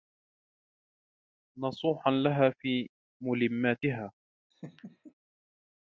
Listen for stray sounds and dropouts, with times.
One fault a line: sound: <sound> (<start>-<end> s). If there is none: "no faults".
sound: laugh (4.5-5.1 s)